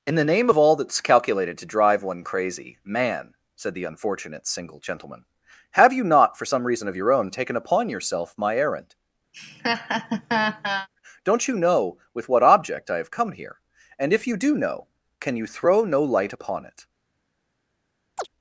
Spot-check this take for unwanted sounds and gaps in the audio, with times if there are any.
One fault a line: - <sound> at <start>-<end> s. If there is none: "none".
- laugh at 9.3-10.9 s
- chirp at 18.2-18.3 s